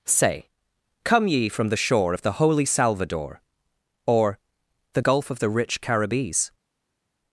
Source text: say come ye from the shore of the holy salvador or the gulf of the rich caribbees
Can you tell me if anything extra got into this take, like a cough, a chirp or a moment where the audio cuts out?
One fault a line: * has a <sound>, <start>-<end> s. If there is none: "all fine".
all fine